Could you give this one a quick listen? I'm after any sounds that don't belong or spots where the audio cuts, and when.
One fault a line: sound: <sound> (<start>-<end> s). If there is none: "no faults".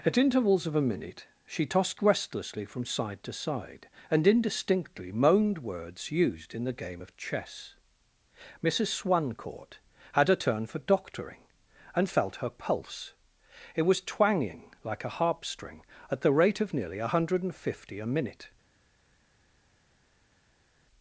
no faults